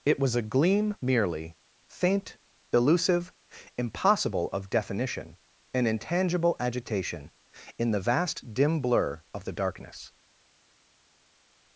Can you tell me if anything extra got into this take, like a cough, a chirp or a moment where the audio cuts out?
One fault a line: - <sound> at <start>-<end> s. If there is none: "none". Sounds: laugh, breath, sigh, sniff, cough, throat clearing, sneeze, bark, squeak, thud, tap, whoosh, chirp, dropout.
none